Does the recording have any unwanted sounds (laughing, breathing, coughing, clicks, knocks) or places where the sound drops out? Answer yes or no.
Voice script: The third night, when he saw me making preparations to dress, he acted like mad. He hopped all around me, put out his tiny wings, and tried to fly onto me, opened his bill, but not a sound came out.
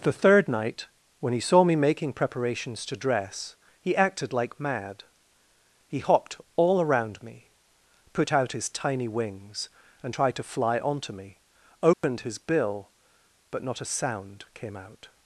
yes